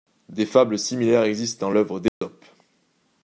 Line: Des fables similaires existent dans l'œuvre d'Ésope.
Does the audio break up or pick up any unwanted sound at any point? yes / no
yes